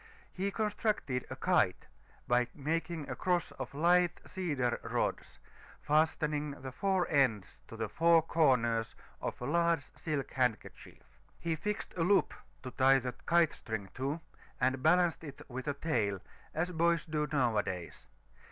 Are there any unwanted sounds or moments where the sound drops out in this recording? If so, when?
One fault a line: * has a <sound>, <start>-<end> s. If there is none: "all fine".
all fine